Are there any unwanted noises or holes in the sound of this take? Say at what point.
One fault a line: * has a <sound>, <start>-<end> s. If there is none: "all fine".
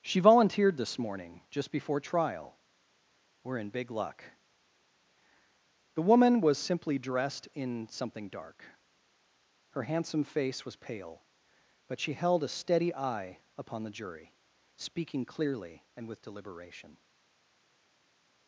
all fine